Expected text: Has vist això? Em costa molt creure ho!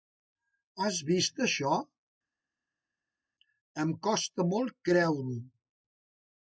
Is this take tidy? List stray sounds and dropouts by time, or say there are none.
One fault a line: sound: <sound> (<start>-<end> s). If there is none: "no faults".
no faults